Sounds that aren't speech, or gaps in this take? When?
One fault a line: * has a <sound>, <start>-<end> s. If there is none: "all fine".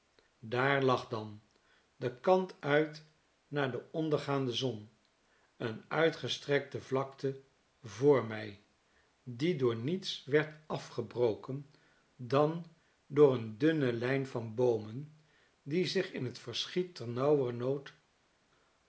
all fine